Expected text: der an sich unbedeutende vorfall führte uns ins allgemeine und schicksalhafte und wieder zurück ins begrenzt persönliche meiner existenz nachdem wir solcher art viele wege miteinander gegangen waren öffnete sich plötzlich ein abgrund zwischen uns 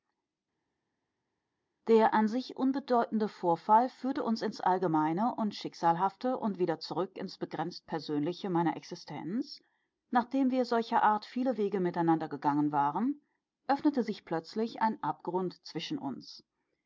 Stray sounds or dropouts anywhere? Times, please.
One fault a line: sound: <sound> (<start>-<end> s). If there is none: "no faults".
no faults